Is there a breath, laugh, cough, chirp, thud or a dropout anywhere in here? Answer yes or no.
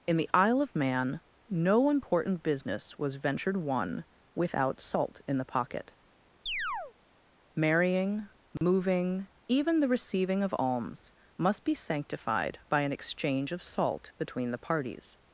yes